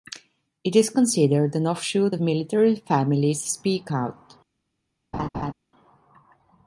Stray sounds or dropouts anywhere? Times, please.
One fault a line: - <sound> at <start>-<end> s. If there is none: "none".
- laugh at 5.1-5.5 s